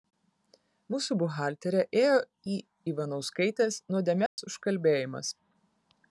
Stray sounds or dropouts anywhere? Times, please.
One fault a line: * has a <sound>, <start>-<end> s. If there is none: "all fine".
* has a dropout, 4.3-4.4 s